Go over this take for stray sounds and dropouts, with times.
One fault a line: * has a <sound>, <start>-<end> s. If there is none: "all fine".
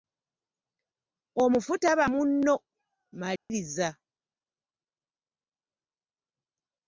* has a dropout, 3.4-3.5 s